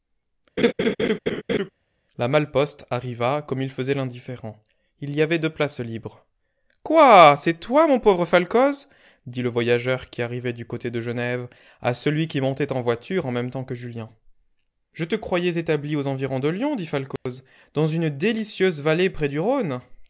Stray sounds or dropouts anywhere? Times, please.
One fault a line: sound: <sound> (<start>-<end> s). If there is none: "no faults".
sound: laugh (0.6-1.7 s)
sound: dropout (17.2-17.3 s)